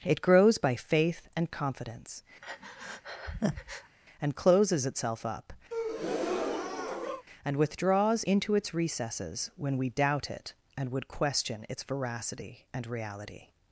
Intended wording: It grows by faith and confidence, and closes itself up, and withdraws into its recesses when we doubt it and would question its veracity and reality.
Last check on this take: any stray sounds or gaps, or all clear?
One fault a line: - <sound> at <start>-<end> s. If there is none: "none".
- breath at 2.4-4.0 s
- breath at 5.7-7.2 s